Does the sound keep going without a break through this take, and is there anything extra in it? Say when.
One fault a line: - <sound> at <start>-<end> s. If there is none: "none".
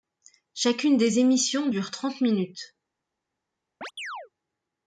- chirp at 3.8-4.3 s